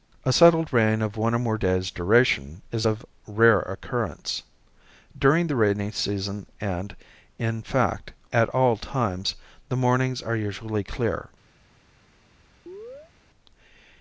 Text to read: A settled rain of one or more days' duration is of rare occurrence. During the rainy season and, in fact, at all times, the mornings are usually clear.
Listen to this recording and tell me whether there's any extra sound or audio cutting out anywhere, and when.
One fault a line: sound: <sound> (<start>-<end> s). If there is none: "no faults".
sound: chirp (12.7-13.1 s)